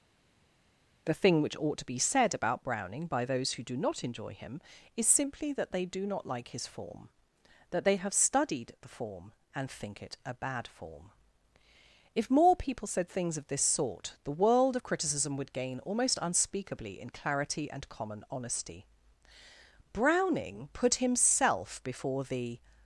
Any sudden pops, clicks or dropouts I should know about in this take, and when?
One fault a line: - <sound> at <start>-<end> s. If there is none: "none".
none